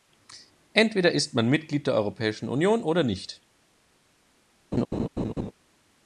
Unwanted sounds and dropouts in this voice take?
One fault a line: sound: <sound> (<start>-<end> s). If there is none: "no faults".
sound: laugh (4.7-5.5 s)